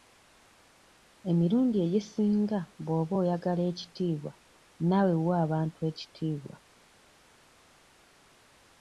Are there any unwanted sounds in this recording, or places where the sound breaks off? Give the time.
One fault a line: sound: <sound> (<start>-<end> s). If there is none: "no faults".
no faults